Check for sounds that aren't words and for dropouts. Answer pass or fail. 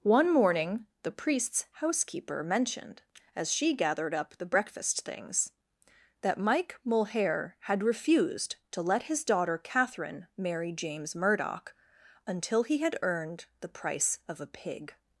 pass